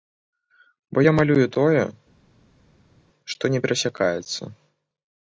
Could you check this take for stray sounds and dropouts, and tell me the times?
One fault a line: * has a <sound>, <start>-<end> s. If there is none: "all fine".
all fine